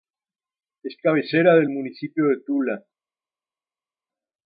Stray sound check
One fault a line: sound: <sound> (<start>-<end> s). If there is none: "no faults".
no faults